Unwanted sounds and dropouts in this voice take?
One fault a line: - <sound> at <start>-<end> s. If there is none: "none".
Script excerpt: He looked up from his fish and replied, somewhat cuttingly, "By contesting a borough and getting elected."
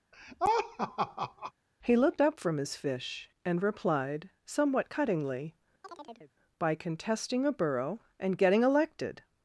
- laugh at 0.1-1.5 s
- chirp at 5.8-6.3 s